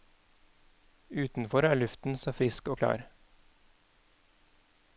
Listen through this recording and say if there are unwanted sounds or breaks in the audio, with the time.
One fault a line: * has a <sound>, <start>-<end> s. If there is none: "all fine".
all fine